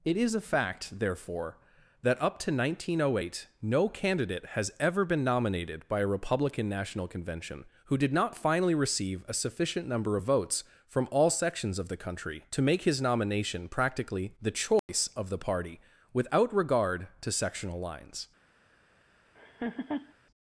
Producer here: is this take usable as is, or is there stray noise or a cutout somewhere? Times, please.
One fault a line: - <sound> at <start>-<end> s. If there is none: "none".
- dropout at 14.8-14.9 s
- laugh at 19.3-20.1 s